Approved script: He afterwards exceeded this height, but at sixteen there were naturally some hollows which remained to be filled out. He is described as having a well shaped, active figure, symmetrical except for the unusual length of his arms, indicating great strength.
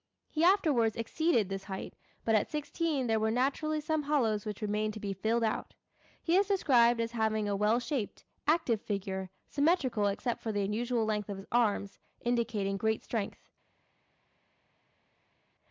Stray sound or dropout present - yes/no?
no